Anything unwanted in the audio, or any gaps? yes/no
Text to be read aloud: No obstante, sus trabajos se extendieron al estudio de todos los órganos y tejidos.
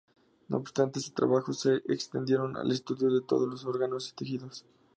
no